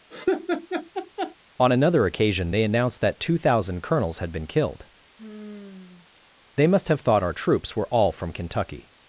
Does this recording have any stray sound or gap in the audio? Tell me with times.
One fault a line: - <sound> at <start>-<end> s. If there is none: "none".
- laugh at 0.1-1.4 s
- sigh at 5.2-6.3 s